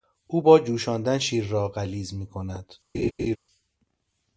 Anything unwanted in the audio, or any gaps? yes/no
yes